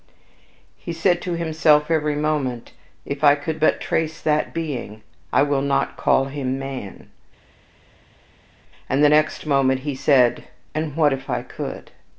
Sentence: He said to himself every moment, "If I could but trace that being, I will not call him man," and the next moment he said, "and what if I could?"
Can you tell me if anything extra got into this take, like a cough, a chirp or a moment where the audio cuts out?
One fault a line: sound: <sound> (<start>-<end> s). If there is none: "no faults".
no faults